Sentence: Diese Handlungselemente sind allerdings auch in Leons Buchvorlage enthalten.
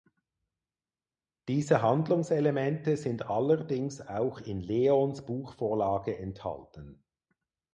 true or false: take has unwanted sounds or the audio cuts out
false